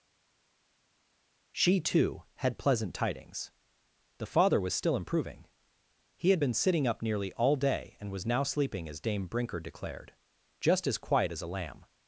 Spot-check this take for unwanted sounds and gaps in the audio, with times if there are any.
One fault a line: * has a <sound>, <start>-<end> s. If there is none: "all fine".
all fine